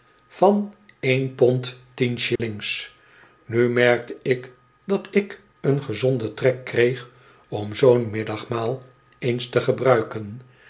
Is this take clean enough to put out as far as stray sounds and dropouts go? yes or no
no